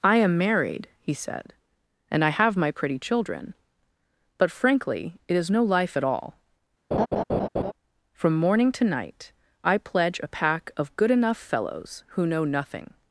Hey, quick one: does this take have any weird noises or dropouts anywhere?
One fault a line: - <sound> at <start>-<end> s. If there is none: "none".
- laugh at 6.9-7.7 s